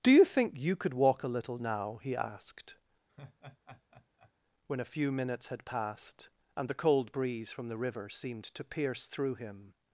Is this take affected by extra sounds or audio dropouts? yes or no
yes